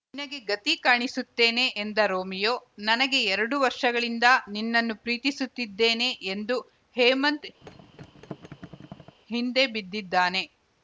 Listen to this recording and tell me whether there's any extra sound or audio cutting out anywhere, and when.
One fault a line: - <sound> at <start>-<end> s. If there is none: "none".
- thud at 7.6-9.2 s